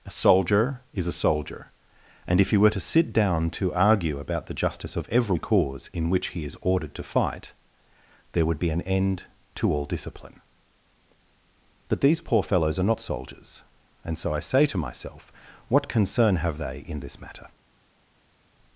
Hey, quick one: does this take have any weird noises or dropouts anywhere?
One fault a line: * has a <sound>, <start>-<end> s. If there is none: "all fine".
all fine